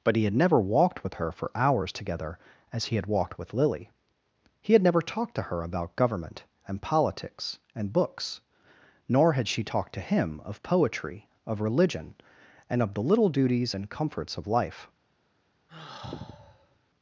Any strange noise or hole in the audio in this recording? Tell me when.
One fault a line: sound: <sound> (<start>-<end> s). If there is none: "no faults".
sound: sigh (15.7-16.8 s)